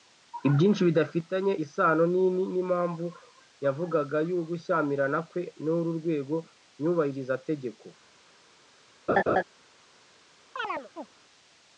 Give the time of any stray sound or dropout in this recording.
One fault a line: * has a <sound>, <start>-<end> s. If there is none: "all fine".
* has a laugh, 9.1-9.4 s
* has a chirp, 10.6-11.1 s